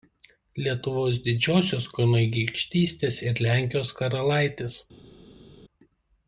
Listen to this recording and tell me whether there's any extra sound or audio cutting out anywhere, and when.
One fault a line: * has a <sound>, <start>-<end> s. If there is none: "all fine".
all fine